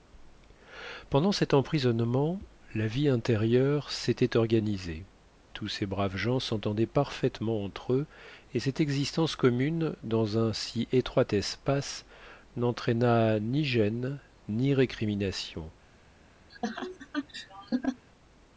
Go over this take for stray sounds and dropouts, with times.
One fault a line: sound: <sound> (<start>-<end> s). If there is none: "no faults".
sound: laugh (16.5-18.0 s)